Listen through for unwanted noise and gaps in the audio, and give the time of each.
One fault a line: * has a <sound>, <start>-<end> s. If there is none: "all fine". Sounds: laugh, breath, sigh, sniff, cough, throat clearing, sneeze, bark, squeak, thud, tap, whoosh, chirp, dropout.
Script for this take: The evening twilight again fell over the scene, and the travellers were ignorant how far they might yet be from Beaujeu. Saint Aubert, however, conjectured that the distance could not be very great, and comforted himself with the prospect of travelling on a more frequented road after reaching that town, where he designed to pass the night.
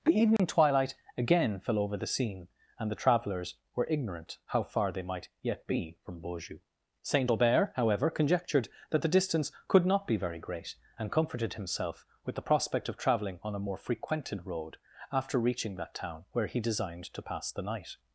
* has a dropout, 0.4-0.4 s